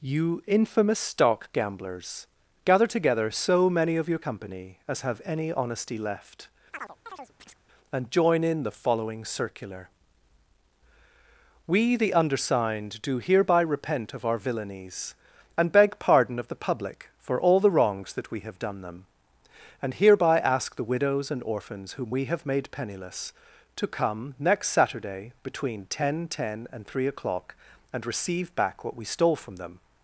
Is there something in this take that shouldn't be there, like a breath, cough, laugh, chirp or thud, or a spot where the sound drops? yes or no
yes